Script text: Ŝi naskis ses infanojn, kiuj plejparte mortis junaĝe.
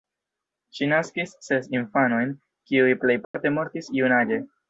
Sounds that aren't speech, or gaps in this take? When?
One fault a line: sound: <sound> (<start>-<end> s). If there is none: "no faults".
sound: dropout (3.2-3.3 s)